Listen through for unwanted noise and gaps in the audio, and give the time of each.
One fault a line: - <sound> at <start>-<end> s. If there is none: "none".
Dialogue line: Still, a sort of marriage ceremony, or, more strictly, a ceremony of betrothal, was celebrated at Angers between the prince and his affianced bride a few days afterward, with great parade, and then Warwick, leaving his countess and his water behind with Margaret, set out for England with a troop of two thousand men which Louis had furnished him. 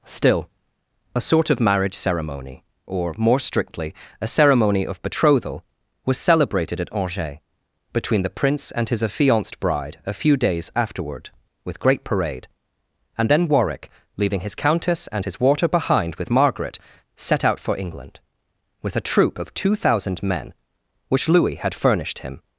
none